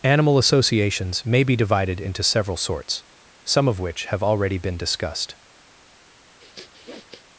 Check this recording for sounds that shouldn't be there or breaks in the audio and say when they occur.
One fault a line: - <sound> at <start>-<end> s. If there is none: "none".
- sniff at 6.4-7.3 s